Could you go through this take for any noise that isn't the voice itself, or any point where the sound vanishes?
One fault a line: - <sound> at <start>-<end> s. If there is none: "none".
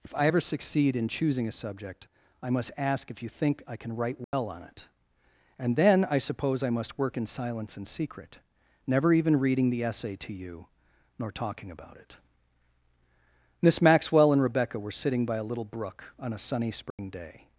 - dropout at 4.2-4.3 s
- dropout at 16.9-17.0 s